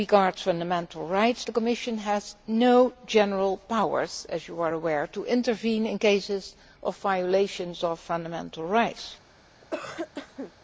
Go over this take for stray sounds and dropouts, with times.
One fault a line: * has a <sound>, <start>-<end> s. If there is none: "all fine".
* has a cough, 9.6-10.5 s